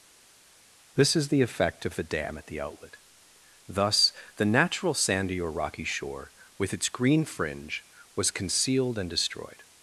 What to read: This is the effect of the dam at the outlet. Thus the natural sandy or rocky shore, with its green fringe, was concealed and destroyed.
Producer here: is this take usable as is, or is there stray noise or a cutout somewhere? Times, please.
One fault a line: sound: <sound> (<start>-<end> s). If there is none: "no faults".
no faults